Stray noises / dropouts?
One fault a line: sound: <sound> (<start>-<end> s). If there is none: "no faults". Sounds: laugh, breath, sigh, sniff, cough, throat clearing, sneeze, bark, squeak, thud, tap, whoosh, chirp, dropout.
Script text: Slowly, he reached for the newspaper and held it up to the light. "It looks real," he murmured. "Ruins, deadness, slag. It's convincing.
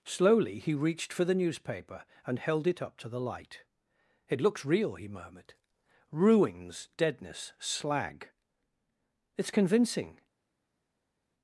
no faults